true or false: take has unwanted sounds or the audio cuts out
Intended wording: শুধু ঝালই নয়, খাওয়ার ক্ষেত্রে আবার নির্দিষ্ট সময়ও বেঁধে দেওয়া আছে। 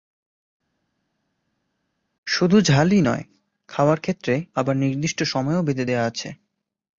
false